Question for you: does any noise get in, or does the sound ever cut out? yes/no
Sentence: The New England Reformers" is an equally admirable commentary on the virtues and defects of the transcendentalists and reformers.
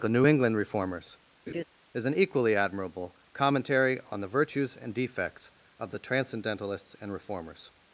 yes